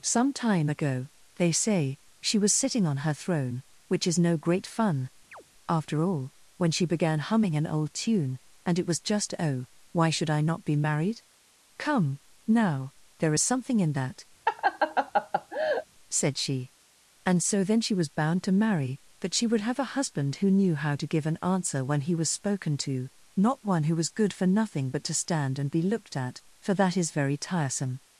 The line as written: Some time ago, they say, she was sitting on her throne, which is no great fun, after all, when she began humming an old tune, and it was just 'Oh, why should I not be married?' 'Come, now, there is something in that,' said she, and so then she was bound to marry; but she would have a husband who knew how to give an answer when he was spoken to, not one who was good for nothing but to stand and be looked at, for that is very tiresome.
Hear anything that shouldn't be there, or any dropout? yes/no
yes